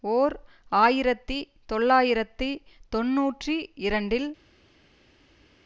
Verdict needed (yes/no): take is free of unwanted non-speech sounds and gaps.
yes